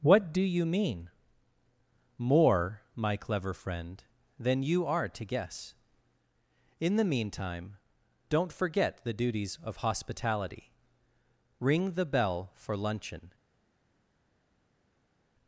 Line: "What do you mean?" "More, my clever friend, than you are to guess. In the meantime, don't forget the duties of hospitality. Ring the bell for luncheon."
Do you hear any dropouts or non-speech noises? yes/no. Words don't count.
no